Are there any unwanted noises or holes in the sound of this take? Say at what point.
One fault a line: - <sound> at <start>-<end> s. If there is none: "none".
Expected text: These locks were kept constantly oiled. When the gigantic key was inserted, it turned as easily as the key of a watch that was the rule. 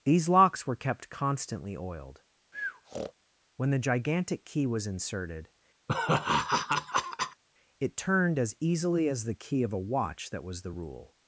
- breath at 2.5-3.1 s
- laugh at 5.9-7.4 s